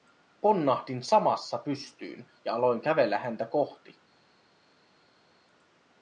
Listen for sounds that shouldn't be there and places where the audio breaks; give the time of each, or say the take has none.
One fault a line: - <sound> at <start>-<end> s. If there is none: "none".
none